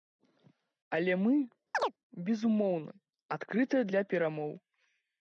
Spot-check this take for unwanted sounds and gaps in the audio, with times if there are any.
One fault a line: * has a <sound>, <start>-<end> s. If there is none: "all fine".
* has a chirp, 1.7-1.9 s